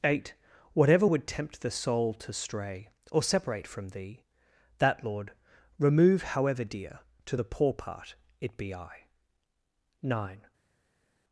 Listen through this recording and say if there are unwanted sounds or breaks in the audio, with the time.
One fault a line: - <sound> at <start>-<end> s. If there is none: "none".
none